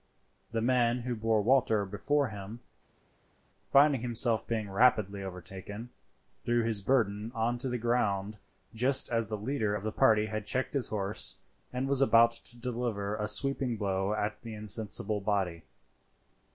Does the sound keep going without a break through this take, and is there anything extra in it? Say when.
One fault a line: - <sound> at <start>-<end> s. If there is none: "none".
none